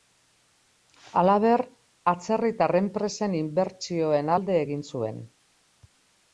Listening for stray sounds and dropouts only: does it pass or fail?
pass